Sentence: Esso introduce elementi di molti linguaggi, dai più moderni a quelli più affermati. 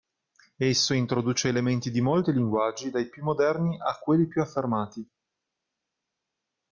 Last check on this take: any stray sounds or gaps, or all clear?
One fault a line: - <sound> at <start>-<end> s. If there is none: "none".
none